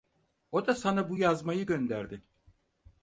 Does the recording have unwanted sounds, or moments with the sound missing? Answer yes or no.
no